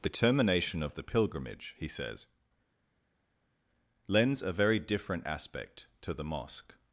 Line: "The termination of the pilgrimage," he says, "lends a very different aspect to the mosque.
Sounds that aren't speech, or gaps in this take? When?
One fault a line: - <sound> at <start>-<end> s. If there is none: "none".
none